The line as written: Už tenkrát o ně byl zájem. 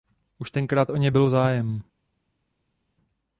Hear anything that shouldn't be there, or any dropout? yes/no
no